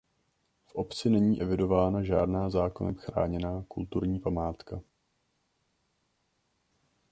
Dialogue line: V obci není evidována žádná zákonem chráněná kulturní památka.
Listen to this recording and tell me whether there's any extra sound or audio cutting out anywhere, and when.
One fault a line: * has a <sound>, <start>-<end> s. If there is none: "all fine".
all fine